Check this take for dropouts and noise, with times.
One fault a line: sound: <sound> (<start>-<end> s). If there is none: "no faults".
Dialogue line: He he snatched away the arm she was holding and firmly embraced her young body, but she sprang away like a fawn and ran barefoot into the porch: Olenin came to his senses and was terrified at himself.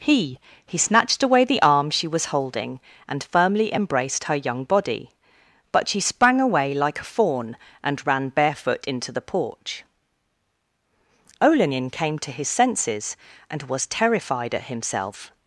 no faults